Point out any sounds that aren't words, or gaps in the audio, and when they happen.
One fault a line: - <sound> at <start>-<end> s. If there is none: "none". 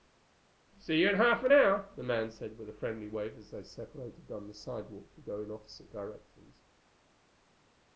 none